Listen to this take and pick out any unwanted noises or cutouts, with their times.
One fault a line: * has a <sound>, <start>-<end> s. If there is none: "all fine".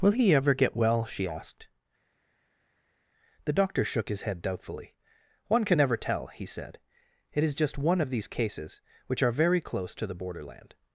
all fine